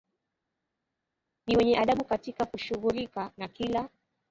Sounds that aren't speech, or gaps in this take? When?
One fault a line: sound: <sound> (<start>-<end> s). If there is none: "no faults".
no faults